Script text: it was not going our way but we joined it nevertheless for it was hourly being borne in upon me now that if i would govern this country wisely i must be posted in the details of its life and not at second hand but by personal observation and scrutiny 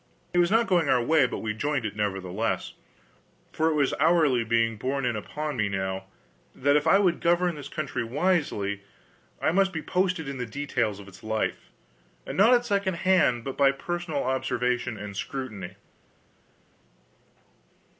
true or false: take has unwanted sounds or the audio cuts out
false